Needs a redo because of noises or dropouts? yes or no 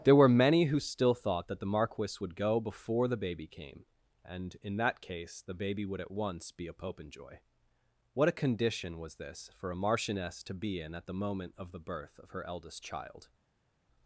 no